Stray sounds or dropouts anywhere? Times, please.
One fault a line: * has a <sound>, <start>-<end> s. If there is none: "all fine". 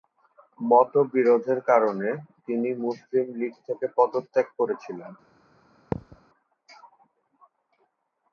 * has a thud, 5.9-6.2 s